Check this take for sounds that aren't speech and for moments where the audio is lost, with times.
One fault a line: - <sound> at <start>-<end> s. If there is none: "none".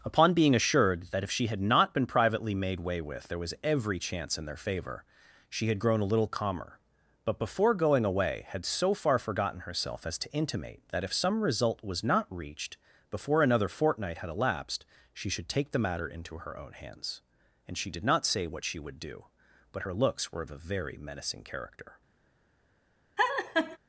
- laugh at 23.2-23.8 s